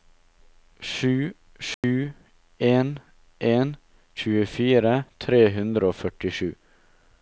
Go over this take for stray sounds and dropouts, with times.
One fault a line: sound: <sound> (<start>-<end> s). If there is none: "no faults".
sound: dropout (1.7-1.8 s)